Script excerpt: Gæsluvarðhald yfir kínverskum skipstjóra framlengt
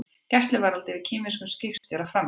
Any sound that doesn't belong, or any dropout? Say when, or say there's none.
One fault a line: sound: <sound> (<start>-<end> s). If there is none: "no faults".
sound: dropout (1.8-1.8 s)